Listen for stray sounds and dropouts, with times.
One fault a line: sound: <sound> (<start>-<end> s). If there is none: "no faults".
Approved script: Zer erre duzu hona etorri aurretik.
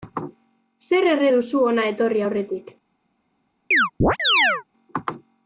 sound: chirp (3.7-4.6 s)